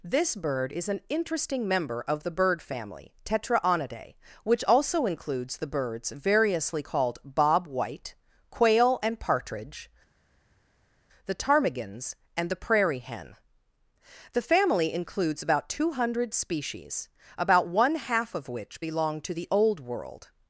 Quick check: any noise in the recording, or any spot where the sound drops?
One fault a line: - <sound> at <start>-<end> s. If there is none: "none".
none